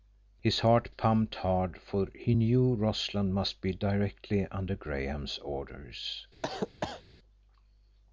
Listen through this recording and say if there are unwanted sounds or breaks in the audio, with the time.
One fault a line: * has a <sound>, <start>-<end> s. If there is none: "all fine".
* has a cough, 6.4-7.0 s